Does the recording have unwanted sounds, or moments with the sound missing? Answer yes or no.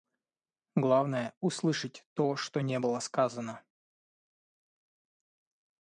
no